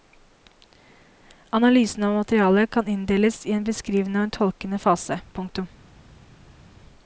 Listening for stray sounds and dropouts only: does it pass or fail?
pass